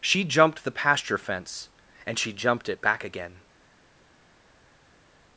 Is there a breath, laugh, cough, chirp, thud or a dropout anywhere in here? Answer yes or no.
no